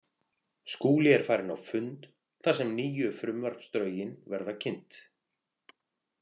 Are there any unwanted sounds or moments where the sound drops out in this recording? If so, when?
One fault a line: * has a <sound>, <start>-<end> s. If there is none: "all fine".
all fine